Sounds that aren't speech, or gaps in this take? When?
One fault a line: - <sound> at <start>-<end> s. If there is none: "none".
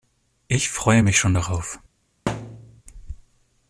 - thud at 2.3-2.8 s